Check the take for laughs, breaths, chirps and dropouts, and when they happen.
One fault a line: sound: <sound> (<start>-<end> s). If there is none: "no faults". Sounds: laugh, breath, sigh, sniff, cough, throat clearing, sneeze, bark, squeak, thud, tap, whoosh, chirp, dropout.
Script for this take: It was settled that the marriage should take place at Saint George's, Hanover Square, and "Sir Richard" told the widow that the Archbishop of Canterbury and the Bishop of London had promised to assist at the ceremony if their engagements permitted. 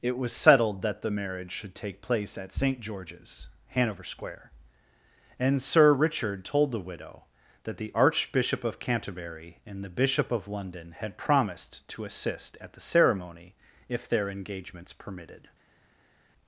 no faults